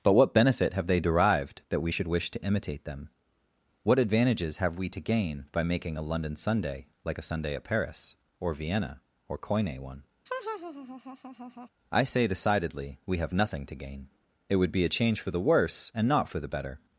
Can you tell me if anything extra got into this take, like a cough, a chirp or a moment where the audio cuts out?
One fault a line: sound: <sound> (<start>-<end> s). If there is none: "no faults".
sound: laugh (10.3-11.7 s)